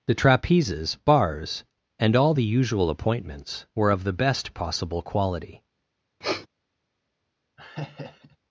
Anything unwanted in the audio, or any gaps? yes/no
yes